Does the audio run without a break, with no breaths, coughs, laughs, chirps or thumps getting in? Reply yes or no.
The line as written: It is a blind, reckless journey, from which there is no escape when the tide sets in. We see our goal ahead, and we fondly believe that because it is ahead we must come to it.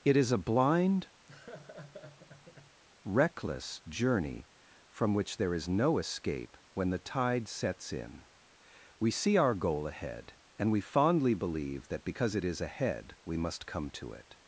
no